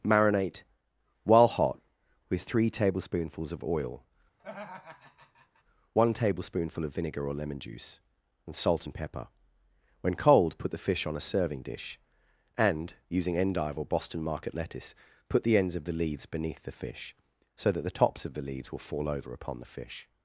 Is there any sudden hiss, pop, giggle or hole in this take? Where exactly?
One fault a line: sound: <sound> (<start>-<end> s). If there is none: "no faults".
sound: laugh (4.4-5.6 s)